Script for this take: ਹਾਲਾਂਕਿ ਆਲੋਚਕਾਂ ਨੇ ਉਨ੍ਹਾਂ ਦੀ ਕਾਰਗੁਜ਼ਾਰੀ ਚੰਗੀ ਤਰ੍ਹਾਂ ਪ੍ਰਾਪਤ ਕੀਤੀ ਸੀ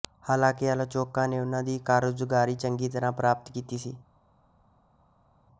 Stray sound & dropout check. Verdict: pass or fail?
pass